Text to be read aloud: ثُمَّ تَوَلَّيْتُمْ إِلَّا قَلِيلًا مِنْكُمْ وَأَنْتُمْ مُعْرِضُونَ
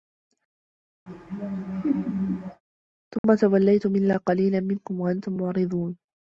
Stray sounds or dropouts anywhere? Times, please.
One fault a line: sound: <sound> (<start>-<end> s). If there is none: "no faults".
sound: laugh (1.1-2.6 s)
sound: dropout (3.2-3.2 s)